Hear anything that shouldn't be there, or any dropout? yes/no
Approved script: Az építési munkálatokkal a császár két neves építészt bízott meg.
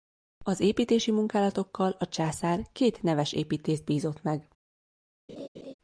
yes